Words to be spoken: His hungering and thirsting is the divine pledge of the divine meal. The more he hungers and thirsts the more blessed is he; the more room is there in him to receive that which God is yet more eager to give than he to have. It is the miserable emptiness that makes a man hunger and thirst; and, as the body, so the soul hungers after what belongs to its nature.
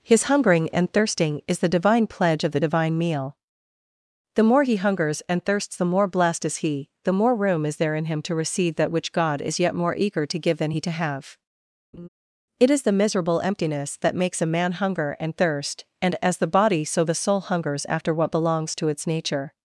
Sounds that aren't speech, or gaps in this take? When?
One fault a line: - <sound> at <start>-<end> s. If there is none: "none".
- laugh at 11.9-12.1 s